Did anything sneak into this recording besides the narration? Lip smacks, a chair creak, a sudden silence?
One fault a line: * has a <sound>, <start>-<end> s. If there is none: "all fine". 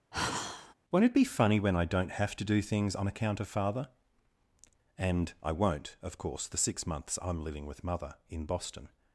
* has a sigh, 0.1-0.7 s